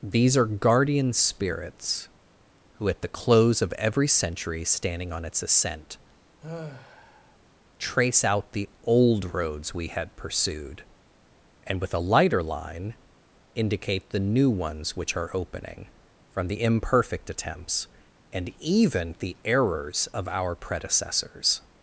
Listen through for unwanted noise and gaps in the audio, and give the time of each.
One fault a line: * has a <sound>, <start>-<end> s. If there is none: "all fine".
* has a sigh, 6.4-7.4 s